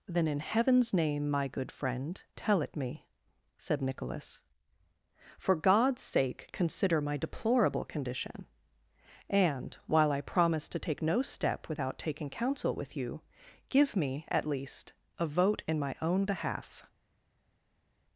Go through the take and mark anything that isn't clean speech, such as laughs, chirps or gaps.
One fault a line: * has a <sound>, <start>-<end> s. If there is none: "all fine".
all fine